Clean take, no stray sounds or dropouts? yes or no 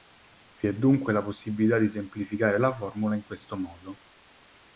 yes